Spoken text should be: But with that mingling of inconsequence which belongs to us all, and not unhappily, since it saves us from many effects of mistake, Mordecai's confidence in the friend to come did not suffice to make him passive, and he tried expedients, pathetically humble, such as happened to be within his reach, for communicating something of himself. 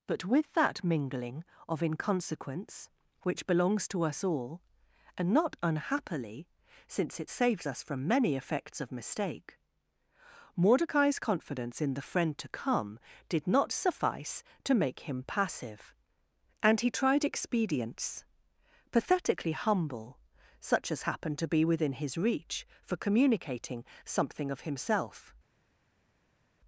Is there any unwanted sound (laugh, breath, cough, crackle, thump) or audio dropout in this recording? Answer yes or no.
no